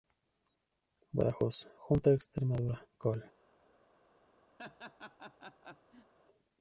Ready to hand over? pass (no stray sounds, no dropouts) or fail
fail